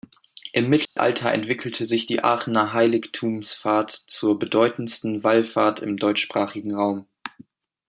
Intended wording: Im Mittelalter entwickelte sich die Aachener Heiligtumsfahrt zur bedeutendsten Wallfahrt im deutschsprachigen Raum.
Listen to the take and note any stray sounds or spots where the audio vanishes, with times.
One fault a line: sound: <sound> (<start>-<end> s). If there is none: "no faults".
sound: dropout (0.8-1.0 s)